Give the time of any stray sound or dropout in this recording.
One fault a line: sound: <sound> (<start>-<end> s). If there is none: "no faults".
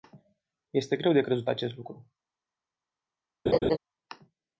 sound: laugh (3.5-3.8 s)